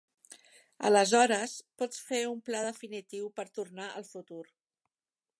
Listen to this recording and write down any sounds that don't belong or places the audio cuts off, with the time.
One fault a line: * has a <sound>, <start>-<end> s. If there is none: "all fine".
all fine